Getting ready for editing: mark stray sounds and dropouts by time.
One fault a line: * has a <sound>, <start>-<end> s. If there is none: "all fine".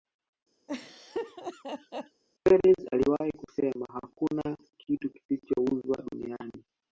* has a laugh, 0.7-2.2 s